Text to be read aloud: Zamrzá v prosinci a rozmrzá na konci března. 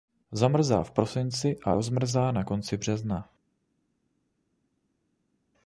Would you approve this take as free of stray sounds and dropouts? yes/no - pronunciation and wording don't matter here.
yes